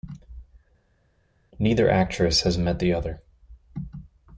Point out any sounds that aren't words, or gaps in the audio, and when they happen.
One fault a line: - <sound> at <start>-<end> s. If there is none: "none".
none